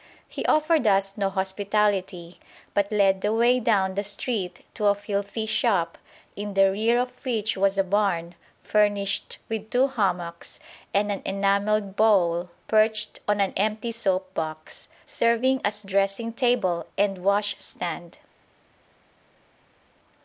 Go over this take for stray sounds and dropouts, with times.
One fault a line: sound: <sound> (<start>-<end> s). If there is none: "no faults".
no faults